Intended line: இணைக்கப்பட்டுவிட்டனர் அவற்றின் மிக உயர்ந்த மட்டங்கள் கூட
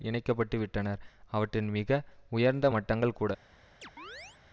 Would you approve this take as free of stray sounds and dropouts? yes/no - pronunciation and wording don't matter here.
no